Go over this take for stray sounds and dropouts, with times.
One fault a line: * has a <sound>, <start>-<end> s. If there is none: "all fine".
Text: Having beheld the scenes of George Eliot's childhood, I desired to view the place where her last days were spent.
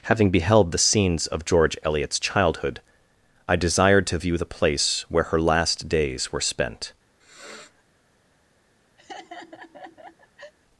* has a sniff, 7.2-7.8 s
* has a laugh, 9.0-10.5 s